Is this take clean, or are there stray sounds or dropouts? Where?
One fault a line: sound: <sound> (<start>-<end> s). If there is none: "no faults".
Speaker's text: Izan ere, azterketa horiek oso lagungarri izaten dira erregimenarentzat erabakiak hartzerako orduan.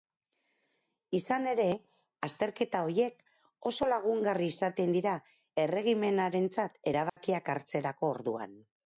sound: dropout (7.1-7.2 s)